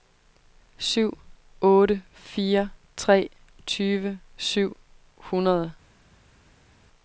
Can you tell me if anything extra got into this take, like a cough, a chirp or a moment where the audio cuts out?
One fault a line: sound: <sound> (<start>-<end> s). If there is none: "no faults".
no faults